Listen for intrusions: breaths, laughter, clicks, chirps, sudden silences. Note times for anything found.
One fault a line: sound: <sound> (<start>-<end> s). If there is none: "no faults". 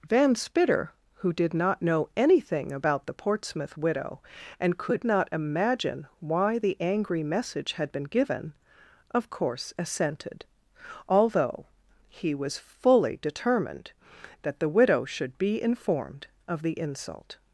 no faults